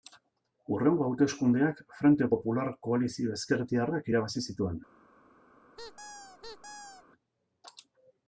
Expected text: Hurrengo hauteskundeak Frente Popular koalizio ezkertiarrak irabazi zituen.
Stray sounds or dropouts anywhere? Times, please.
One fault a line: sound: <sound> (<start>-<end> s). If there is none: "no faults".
sound: squeak (5.8-7.0 s)